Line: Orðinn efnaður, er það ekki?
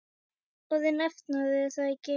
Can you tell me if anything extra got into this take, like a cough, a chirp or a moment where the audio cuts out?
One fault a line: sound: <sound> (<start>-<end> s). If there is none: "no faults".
no faults